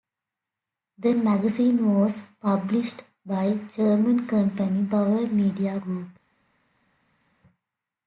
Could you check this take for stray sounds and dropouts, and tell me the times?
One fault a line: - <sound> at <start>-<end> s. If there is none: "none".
none